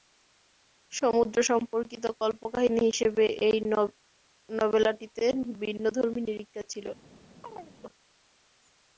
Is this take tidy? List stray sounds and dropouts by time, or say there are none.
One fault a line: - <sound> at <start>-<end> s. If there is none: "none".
- chirp at 7.4-7.8 s